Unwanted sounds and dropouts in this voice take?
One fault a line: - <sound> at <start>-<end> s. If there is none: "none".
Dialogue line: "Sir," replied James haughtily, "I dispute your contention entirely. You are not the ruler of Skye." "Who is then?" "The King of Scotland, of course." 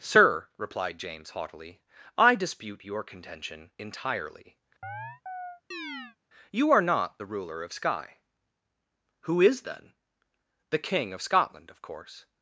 - chirp at 4.8-6.2 s